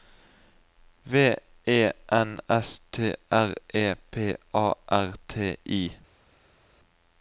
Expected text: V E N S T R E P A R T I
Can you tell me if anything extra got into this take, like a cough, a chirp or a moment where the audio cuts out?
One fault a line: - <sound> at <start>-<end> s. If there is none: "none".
none